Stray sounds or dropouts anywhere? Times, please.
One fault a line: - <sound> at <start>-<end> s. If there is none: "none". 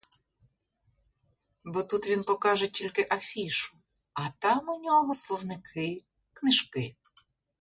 none